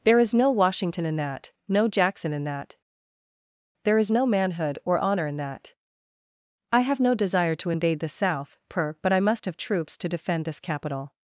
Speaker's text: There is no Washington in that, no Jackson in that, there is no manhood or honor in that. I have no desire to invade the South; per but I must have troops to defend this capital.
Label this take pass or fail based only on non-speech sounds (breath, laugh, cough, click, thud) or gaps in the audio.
pass